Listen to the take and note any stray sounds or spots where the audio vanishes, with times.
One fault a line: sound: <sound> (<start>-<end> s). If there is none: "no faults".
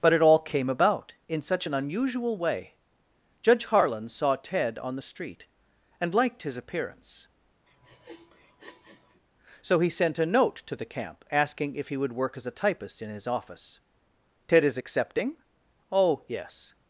sound: sniff (7.7-9.2 s)